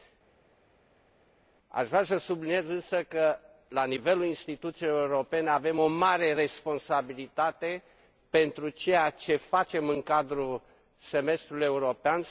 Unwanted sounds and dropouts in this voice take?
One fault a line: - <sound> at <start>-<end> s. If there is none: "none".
none